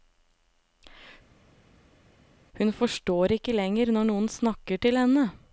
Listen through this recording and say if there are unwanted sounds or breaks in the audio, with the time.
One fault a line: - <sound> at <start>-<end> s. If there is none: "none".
none